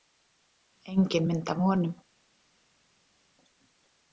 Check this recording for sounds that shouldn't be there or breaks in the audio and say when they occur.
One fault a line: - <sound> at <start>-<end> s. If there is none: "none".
none